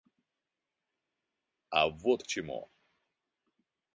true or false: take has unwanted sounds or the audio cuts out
false